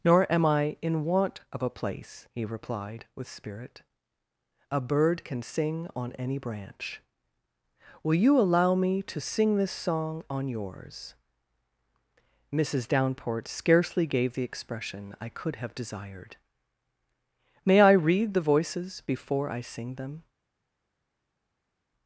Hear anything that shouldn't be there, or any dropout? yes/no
no